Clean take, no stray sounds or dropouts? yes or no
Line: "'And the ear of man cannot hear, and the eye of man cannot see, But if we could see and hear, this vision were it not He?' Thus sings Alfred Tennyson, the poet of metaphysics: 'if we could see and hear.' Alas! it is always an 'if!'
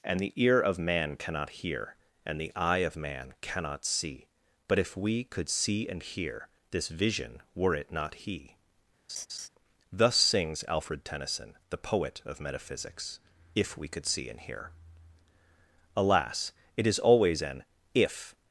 no